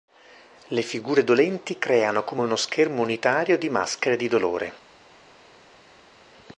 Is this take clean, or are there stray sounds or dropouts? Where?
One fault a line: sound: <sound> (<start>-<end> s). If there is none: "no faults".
no faults